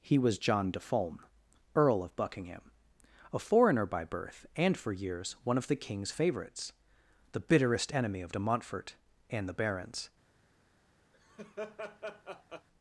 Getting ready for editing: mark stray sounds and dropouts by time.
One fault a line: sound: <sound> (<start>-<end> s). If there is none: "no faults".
sound: laugh (11.1-12.7 s)